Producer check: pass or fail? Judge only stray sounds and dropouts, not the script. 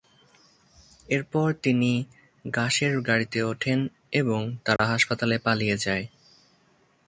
fail